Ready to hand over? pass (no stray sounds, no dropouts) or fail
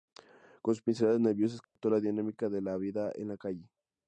fail